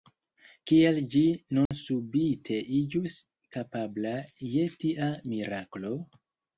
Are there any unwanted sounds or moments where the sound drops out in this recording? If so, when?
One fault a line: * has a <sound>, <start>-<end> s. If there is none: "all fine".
* has a dropout, 1.7-1.7 s